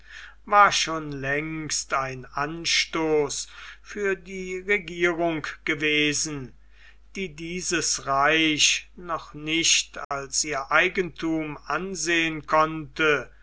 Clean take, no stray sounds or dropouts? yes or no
no